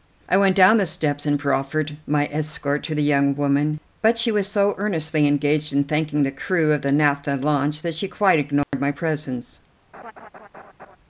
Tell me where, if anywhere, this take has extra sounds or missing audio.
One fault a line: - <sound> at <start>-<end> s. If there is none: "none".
- dropout at 8.6-8.7 s
- laugh at 9.9-11.0 s